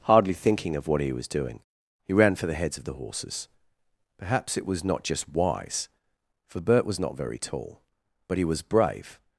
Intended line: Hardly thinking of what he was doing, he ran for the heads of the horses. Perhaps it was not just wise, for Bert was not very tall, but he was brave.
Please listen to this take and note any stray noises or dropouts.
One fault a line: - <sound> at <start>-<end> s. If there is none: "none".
none